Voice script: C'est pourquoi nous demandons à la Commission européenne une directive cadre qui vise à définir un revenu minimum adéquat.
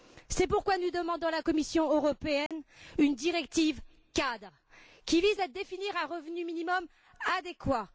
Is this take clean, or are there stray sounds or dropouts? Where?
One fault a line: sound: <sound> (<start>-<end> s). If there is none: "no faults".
sound: dropout (2.5-2.5 s)